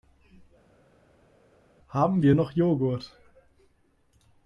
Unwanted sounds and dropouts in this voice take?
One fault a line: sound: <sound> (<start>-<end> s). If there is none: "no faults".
no faults